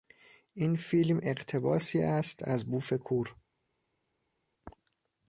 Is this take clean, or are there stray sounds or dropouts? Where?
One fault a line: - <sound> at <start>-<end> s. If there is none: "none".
none